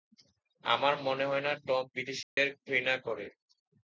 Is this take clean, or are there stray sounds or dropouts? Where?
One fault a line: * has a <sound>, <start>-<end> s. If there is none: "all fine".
* has a dropout, 2.2-2.4 s